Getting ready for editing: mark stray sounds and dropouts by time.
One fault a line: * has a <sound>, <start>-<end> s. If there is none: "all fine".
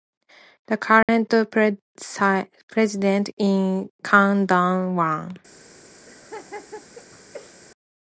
* has a dropout, 1.0-1.1 s
* has a laugh, 6.1-7.6 s